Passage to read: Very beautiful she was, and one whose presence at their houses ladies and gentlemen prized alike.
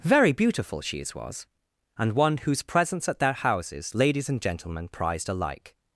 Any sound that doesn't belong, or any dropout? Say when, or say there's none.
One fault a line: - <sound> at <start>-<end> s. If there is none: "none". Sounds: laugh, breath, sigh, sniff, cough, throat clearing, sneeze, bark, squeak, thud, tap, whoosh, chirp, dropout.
none